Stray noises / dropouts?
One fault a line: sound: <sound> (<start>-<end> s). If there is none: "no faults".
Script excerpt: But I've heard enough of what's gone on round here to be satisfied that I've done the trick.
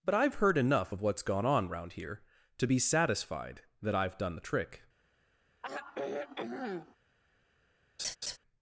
sound: sigh (5.6-7.0 s)
sound: laugh (8.0-8.4 s)